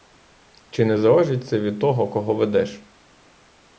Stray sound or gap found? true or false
false